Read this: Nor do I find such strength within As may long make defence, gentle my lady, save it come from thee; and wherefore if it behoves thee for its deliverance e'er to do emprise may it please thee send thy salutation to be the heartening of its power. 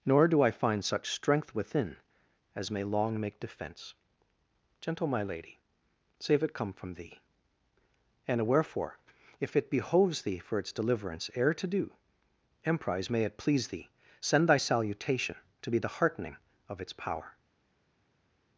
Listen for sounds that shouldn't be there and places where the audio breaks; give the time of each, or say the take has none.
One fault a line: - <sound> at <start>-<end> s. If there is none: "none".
none